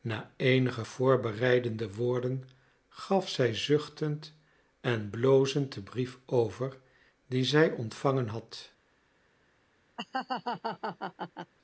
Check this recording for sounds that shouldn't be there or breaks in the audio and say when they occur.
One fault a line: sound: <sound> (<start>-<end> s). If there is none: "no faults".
sound: laugh (10.0-11.5 s)